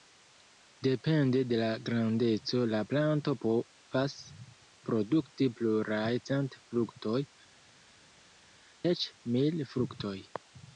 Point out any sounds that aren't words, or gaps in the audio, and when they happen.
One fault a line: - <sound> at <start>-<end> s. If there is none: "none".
none